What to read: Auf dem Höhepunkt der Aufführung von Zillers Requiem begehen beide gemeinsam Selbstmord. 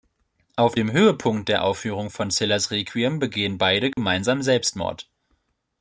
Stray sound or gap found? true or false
true